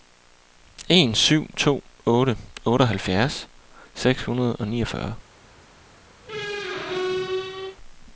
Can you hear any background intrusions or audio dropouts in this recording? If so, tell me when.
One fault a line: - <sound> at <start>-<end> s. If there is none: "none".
- squeak at 6.2-7.8 s